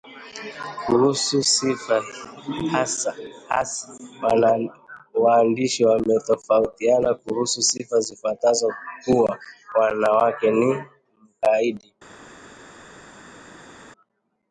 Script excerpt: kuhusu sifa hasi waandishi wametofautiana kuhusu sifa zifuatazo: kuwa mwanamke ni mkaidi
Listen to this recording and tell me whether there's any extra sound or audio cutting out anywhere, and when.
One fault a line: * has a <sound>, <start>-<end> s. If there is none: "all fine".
all fine